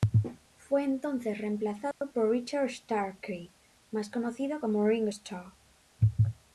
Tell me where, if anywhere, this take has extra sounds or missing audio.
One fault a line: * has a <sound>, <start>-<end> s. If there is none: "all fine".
* has a dropout, 1.9-2.0 s